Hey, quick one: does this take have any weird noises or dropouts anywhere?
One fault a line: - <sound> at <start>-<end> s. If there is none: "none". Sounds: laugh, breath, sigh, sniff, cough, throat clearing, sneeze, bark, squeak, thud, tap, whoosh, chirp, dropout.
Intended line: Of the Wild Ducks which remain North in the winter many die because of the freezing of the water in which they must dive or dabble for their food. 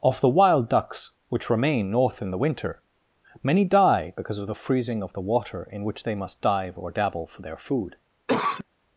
- cough at 8.3-8.6 s